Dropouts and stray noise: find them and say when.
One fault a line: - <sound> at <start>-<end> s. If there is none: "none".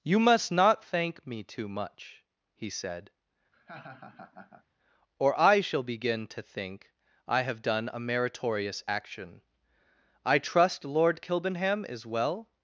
- laugh at 3.5-4.7 s